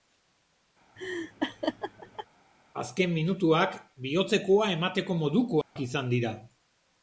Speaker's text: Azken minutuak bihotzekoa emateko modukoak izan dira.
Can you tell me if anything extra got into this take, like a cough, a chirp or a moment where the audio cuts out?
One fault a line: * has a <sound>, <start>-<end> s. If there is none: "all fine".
* has a laugh, 1.0-2.3 s
* has a dropout, 5.6-5.8 s